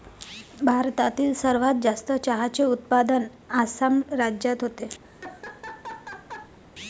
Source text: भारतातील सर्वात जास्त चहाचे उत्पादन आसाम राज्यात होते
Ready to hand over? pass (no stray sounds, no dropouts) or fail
fail